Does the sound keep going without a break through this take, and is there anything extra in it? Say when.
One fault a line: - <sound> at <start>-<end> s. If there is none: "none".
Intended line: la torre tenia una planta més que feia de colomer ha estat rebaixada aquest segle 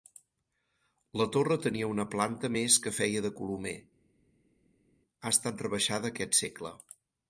none